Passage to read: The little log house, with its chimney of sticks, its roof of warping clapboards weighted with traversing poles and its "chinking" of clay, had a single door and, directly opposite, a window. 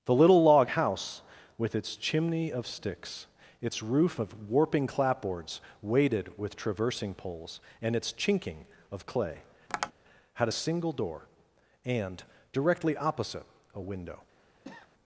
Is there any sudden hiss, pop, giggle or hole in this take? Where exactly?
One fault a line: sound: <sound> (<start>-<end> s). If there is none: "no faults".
sound: tap (9.7-9.9 s)
sound: cough (14.6-14.9 s)